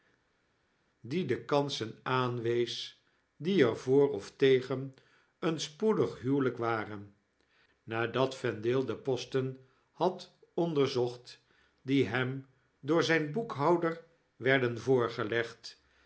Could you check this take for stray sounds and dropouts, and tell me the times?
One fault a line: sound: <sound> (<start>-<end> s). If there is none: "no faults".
no faults